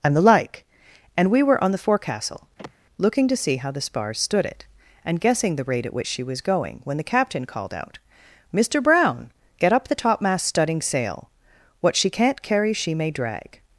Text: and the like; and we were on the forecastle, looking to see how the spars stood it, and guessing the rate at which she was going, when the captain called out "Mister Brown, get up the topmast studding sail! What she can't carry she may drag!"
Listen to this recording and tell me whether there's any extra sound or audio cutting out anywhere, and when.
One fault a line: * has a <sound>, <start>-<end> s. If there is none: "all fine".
* has a sigh, 2.6-2.7 s